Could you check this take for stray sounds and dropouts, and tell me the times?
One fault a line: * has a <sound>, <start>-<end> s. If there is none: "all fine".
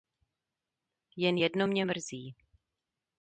all fine